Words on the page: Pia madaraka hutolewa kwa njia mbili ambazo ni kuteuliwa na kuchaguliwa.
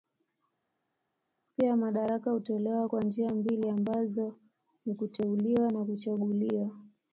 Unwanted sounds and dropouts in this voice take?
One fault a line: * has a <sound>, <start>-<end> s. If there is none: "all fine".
all fine